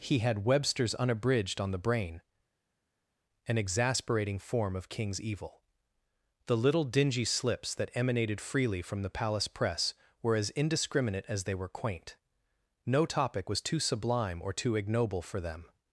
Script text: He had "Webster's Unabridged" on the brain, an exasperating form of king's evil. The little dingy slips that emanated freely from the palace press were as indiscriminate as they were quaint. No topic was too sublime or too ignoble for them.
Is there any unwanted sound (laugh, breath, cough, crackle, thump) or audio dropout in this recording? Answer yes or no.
no